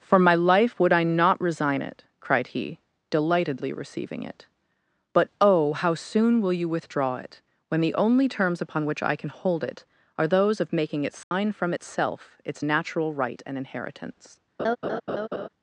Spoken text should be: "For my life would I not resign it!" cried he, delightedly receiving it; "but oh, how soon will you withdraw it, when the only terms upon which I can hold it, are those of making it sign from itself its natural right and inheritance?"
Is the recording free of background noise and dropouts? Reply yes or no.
no